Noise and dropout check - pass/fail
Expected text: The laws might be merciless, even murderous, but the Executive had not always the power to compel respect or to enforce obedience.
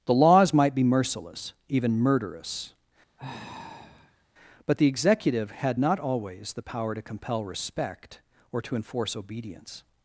fail